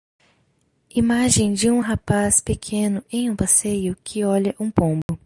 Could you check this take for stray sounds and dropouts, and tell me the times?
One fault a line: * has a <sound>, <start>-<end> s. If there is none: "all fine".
* has a dropout, 5.0-5.1 s